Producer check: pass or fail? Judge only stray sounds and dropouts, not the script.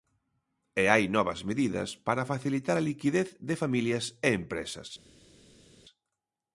pass